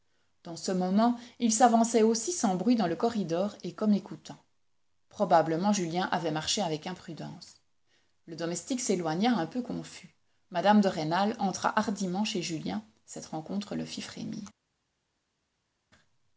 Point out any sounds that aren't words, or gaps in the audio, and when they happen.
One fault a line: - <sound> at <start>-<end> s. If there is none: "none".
none